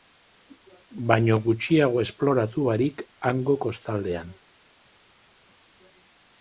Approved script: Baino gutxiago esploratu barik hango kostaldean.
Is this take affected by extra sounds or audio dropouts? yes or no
no